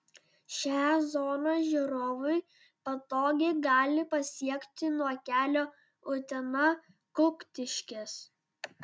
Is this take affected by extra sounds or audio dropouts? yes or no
no